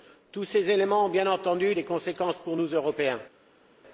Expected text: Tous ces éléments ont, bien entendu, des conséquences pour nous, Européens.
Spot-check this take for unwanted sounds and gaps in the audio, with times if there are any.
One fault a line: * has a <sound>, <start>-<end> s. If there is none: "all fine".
all fine